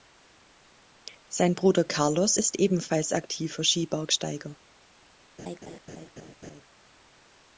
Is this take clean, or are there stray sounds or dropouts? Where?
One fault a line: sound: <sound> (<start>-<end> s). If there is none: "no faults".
sound: laugh (5.4-6.6 s)